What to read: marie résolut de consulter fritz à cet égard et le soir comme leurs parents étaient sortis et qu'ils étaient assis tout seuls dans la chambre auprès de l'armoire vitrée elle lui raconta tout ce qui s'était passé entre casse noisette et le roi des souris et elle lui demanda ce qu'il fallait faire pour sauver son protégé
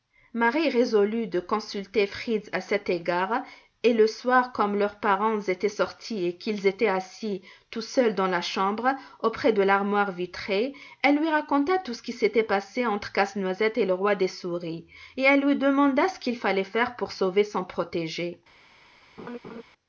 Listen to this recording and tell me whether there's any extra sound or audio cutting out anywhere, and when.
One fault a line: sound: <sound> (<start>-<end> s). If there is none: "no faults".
sound: laugh (19.2-19.6 s)